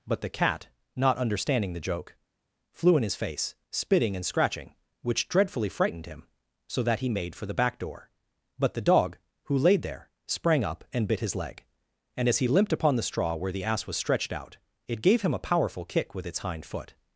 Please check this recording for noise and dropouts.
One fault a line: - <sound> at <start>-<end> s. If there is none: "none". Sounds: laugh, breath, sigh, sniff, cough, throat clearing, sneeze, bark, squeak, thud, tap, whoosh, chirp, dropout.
none